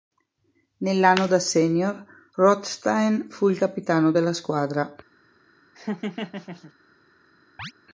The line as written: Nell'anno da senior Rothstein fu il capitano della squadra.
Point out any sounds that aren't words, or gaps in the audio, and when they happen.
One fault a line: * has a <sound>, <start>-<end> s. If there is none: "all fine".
* has a laugh, 5.7-6.7 s
* has a chirp, 7.6-7.7 s